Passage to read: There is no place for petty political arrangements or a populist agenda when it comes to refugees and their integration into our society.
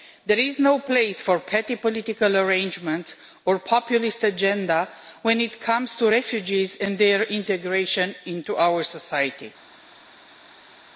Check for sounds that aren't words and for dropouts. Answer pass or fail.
pass